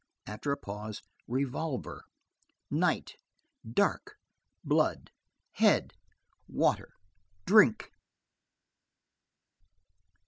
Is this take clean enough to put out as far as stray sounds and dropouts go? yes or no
yes